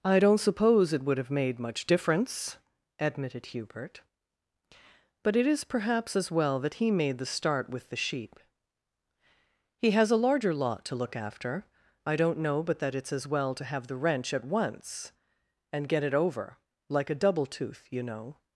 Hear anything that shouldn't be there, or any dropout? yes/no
no